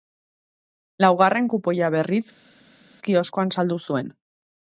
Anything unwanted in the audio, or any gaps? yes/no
no